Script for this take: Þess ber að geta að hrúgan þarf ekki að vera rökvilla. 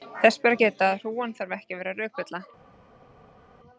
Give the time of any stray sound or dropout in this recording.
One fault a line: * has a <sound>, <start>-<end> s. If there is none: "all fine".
all fine